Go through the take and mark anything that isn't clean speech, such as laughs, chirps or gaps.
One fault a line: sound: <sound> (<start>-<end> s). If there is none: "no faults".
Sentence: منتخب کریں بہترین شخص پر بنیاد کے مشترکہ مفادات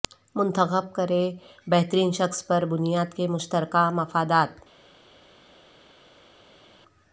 no faults